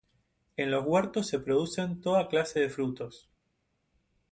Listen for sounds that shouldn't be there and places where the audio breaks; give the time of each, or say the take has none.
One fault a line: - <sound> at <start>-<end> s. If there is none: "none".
none